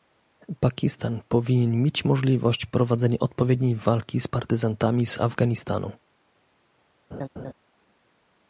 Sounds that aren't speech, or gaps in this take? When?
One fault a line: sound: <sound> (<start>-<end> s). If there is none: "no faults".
sound: laugh (7.1-7.5 s)